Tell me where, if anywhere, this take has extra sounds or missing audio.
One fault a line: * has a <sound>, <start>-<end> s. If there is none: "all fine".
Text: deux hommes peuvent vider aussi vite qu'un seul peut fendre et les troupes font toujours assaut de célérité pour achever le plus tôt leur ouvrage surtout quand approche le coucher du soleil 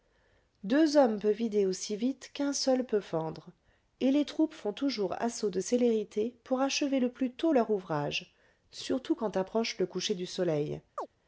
* has a chirp, 11.0-11.1 s